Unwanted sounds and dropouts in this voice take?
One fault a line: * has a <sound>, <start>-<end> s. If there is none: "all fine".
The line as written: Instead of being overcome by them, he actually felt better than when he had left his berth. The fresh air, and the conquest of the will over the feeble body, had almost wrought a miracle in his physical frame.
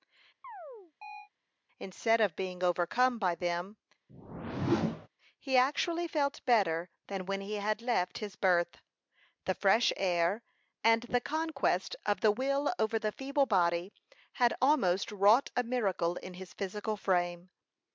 * has a chirp, 0.4-1.3 s
* has a whoosh, 4.1-5.1 s